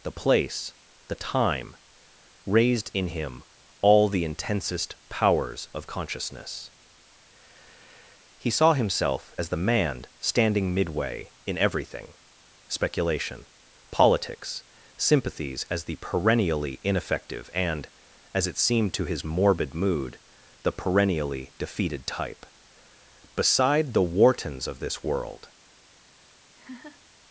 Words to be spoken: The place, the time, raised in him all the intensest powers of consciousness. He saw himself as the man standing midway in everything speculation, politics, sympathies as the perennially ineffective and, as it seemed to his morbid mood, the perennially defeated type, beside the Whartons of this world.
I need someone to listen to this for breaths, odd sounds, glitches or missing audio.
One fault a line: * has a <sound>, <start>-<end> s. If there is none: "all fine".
* has a laugh, 26.5-27.0 s